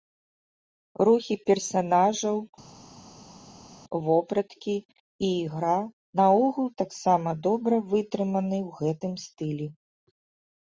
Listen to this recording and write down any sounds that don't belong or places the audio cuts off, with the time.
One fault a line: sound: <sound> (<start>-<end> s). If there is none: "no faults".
no faults